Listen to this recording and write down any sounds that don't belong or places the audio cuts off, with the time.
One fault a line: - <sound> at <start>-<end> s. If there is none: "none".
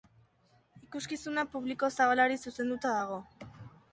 none